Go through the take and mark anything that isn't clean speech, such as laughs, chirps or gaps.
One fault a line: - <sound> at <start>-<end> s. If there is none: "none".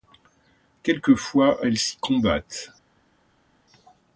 none